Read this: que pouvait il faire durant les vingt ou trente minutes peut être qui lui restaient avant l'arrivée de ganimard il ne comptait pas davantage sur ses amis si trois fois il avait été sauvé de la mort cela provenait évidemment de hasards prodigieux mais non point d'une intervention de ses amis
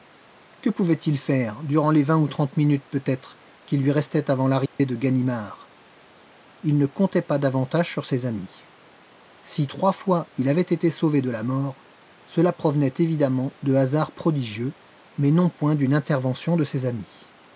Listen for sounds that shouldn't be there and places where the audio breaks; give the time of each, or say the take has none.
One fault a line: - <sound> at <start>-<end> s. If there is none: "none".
- dropout at 4.7-4.8 s